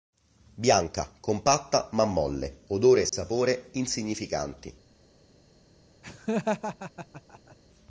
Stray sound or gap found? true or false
true